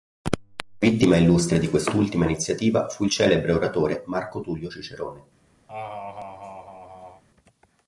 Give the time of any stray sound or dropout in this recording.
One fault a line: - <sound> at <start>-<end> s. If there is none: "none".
- laugh at 5.7-7.2 s